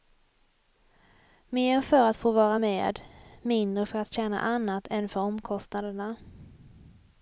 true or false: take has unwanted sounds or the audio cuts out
false